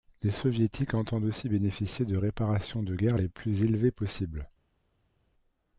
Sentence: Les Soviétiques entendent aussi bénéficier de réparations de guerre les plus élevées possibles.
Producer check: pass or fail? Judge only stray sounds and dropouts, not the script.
pass